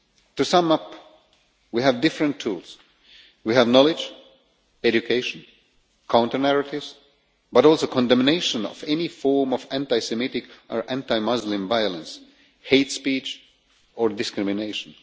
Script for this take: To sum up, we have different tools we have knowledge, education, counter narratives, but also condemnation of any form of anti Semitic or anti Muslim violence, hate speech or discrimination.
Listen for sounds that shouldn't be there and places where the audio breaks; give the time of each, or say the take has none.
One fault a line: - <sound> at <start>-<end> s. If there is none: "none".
none